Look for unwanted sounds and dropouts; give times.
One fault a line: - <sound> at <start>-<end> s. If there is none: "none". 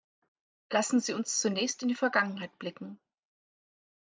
none